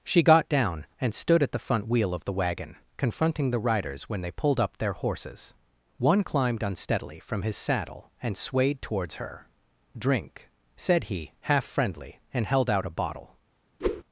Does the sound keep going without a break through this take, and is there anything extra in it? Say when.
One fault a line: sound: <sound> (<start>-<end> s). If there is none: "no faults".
sound: whoosh (13.8-14.0 s)